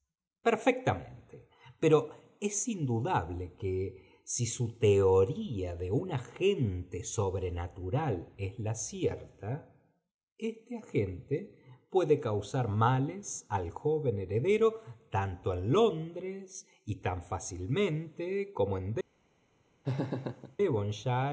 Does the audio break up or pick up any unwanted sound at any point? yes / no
yes